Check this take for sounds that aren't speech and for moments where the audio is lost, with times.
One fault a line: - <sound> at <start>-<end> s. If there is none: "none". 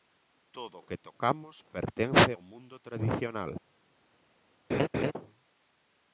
- laugh at 4.7-5.1 s